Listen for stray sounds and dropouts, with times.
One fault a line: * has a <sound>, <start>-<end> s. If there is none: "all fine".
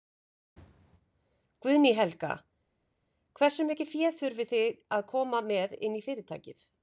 all fine